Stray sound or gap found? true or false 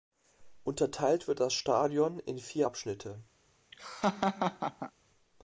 true